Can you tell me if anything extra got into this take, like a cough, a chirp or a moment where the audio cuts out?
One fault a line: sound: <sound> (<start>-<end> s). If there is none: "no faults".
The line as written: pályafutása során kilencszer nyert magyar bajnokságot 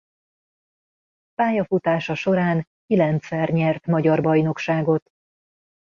no faults